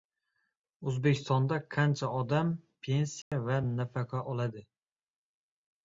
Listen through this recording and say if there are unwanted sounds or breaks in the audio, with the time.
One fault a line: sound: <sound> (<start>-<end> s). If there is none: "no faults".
sound: dropout (3.2-3.3 s)